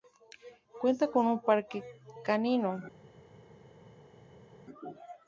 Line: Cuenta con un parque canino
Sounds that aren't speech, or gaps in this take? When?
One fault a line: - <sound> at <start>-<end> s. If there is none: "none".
none